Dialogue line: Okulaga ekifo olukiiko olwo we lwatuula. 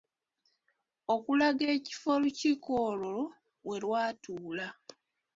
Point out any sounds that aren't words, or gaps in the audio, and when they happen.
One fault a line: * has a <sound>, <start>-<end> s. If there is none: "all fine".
all fine